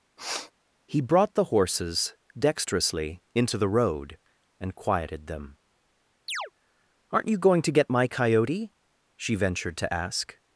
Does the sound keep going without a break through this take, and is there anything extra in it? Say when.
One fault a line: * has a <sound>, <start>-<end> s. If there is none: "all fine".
* has a sniff, 0.2-0.5 s
* has a chirp, 6.3-6.5 s